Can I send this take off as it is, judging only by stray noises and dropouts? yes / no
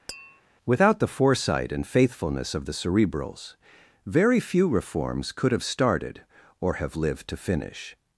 no